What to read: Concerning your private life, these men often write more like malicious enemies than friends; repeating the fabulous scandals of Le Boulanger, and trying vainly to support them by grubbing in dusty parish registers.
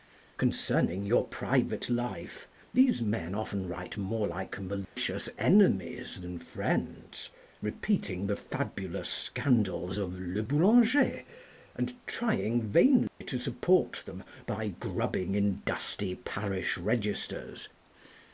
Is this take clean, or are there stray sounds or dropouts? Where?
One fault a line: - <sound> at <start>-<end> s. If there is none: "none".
- dropout at 4.8-5.0 s
- dropout at 13.1-13.2 s